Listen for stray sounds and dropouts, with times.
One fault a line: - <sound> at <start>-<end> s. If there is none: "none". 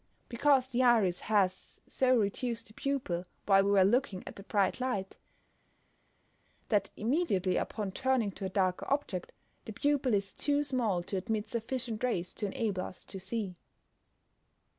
none